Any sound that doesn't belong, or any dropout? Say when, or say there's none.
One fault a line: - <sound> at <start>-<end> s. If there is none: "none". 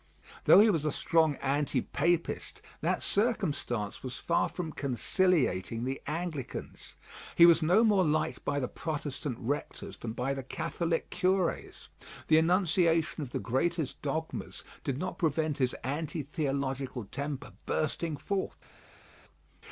none